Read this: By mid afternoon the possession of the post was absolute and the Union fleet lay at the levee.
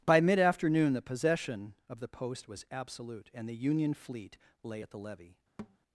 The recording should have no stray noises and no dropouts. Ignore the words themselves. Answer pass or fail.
fail